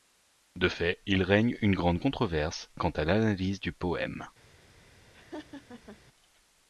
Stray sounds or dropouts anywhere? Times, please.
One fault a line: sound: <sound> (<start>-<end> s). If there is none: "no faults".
sound: laugh (5.1-6.0 s)